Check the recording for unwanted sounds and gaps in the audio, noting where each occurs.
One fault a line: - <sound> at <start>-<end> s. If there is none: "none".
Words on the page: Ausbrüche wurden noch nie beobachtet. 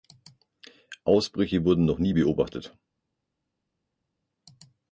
none